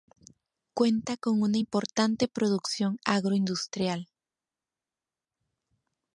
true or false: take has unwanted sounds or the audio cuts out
false